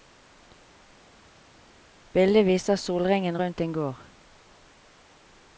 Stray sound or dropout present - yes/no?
no